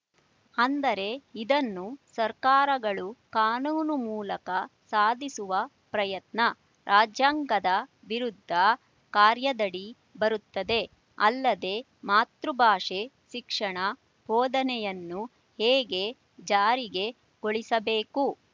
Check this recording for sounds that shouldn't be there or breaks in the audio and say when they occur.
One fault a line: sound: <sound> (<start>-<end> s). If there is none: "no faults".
no faults